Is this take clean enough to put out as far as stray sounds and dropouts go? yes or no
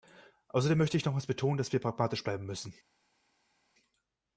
yes